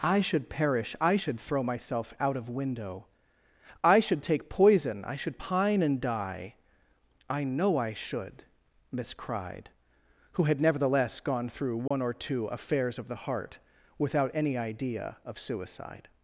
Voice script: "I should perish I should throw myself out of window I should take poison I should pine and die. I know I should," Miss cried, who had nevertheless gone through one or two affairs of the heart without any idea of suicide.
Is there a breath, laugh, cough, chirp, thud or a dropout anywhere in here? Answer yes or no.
yes